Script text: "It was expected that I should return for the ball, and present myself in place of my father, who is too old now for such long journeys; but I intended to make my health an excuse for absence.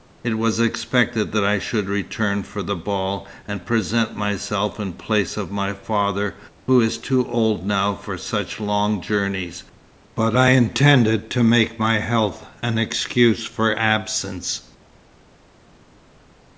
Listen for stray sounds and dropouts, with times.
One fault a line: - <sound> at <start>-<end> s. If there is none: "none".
none